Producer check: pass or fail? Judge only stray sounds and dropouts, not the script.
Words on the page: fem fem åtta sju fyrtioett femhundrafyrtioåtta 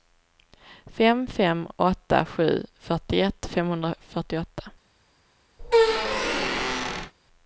fail